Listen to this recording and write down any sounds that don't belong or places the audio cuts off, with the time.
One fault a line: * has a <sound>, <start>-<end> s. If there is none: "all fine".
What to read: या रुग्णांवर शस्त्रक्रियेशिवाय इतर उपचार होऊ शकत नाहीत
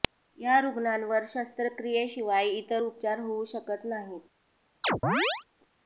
* has a chirp, 4.8-5.4 s